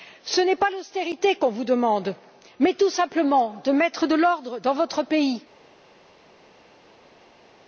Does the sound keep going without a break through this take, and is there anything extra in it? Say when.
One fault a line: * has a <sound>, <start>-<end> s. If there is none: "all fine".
all fine